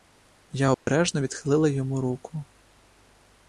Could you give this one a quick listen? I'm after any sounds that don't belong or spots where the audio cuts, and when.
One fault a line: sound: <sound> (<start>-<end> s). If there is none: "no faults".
sound: dropout (0.7-0.9 s)